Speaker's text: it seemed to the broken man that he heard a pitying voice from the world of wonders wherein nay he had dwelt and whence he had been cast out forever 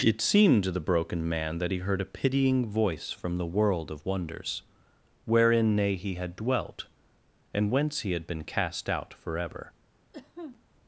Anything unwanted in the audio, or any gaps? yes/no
yes